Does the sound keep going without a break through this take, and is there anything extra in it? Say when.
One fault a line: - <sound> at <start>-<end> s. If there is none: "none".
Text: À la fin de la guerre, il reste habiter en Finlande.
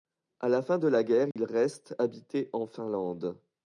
- dropout at 1.3-1.4 s